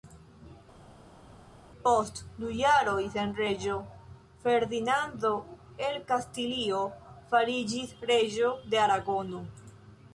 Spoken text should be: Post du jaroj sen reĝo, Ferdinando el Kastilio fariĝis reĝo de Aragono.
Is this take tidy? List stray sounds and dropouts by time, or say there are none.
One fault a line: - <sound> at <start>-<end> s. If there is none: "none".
none